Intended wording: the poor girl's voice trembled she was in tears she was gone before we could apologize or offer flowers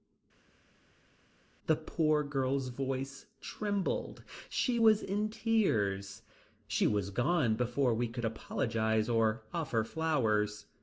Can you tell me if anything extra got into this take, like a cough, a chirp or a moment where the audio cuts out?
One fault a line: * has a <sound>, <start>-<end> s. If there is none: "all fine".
all fine